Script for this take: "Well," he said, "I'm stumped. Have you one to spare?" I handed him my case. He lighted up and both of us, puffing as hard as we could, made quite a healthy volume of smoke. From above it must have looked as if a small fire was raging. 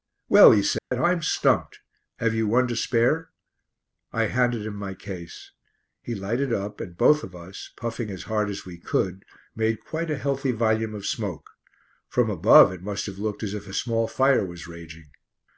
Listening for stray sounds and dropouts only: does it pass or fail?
fail